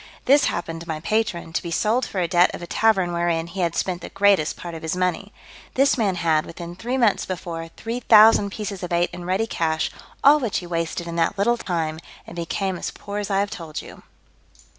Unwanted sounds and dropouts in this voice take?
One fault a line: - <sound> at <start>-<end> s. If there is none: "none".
- dropout at 11.6-11.7 s